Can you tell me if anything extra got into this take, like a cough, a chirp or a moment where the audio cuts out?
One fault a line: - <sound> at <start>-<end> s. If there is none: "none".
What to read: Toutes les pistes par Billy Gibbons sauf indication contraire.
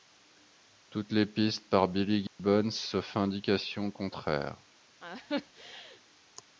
- dropout at 2.3-2.4 s
- laugh at 5.0-6.0 s